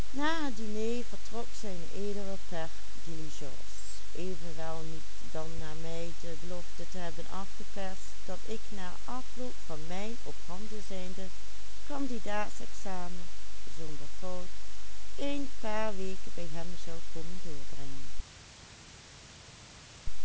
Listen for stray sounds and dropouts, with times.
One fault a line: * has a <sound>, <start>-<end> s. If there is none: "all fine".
all fine